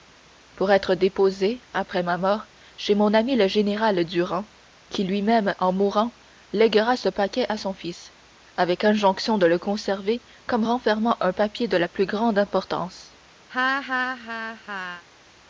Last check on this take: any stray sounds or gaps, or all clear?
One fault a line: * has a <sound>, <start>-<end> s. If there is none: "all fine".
* has a laugh, 13.5-15.0 s